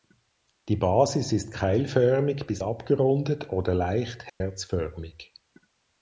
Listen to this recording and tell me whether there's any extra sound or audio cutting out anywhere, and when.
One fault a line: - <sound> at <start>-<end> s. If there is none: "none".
- dropout at 4.3-4.4 s